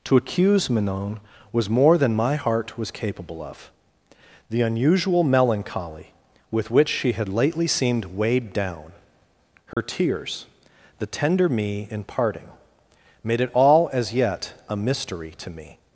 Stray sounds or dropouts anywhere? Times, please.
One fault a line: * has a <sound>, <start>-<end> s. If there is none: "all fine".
* has a dropout, 9.7-9.8 s